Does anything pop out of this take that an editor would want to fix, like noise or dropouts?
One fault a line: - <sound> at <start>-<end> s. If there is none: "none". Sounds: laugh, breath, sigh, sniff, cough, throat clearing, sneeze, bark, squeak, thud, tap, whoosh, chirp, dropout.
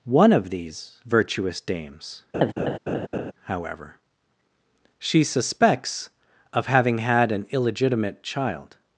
- laugh at 2.3-3.3 s